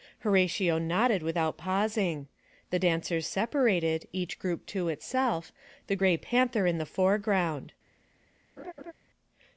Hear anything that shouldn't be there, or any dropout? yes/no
yes